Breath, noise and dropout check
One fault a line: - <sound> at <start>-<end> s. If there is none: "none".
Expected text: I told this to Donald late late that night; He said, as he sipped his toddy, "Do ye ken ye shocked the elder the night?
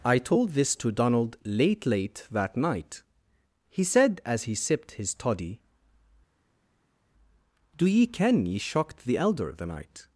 none